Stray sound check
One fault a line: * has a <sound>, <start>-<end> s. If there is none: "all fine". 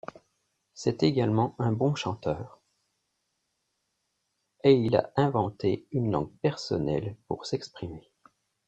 all fine